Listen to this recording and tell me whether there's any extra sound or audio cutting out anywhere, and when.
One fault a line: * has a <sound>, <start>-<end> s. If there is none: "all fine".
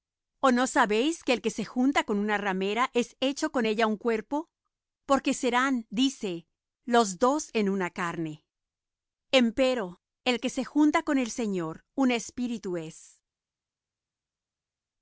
all fine